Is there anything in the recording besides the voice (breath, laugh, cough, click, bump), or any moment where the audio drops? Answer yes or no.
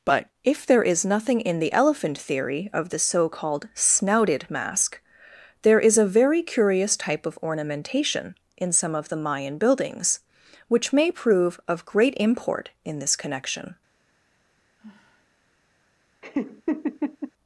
yes